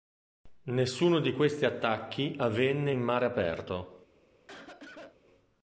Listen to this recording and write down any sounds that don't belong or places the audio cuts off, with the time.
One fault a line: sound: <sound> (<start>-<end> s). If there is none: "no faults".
sound: cough (4.5-5.2 s)